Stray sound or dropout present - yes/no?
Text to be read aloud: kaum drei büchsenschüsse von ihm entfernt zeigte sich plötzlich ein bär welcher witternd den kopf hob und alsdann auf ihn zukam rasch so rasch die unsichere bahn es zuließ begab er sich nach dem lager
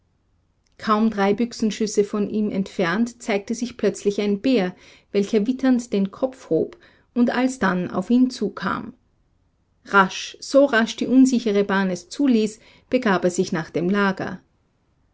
no